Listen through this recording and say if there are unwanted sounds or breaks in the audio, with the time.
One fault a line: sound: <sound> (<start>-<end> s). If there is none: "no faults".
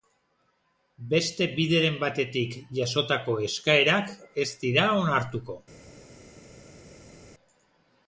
no faults